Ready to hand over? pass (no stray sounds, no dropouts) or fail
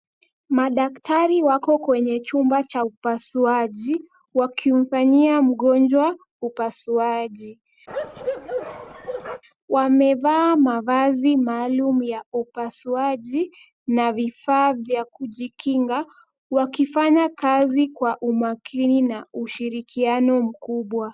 fail